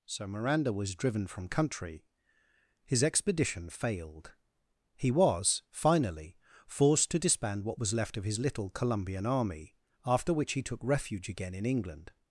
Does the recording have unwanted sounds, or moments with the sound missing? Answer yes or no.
no